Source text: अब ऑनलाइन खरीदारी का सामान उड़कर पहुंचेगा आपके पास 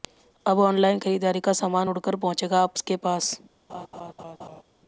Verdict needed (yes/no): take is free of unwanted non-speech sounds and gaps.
no